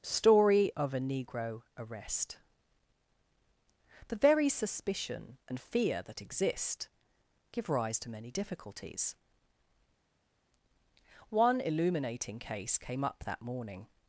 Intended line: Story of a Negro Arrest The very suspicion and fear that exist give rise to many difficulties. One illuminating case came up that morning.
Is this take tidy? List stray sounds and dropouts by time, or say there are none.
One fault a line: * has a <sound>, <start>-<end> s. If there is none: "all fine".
all fine